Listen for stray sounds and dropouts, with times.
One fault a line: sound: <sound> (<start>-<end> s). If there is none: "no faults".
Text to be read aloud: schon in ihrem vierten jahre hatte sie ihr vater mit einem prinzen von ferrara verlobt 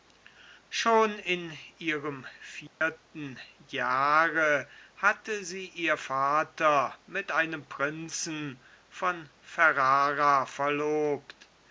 sound: dropout (2.7-2.8 s)